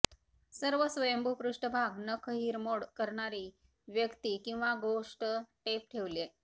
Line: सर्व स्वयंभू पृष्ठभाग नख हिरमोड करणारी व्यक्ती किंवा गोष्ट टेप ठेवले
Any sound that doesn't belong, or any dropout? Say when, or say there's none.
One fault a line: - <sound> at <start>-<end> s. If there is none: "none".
none